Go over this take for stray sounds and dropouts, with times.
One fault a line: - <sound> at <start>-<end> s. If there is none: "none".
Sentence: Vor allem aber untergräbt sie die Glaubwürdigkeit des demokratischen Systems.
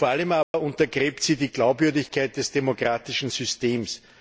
- dropout at 0.4-0.5 s